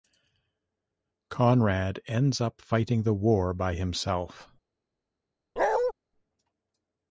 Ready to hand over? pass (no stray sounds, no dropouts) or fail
fail